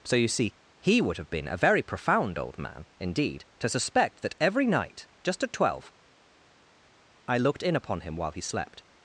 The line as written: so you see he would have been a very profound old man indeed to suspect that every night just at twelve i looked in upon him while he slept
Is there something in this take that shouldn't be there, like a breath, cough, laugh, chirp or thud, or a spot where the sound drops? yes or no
no